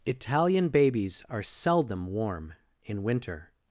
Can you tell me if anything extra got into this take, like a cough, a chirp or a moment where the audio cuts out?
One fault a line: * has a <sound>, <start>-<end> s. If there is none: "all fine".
all fine